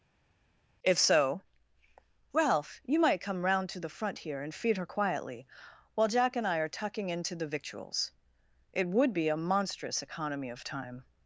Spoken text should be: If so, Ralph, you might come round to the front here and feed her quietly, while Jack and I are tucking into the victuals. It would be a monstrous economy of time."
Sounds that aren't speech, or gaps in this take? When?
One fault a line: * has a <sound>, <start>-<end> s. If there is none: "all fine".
all fine